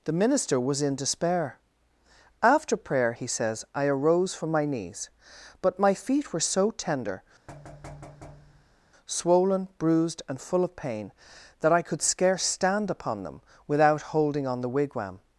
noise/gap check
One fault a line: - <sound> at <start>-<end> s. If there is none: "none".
- thud at 7.5-8.9 s